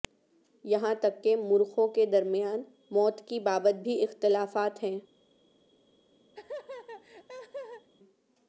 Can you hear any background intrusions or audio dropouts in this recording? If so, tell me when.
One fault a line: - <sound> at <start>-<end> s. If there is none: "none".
- laugh at 6.3-7.9 s